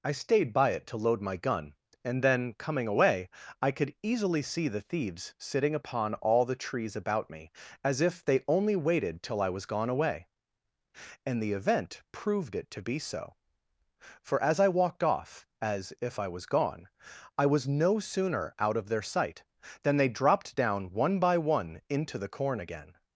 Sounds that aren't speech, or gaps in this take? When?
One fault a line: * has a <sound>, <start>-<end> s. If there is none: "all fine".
all fine